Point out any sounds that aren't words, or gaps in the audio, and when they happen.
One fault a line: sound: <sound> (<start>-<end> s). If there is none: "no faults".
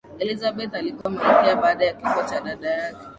sound: dropout (1.0-1.1 s)